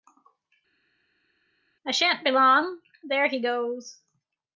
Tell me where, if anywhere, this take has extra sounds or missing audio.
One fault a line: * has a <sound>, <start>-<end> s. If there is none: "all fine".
all fine